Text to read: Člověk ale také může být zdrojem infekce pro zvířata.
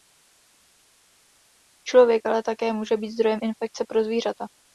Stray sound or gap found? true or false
false